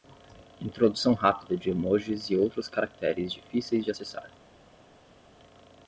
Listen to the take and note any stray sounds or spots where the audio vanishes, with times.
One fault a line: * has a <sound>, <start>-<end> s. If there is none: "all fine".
all fine